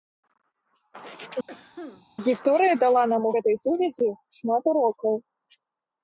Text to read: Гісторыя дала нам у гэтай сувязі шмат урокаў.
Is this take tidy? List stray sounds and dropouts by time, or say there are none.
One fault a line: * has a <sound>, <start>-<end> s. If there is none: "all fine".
* has a cough, 1.5-2.1 s